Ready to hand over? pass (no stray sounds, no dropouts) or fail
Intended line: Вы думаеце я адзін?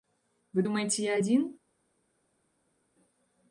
pass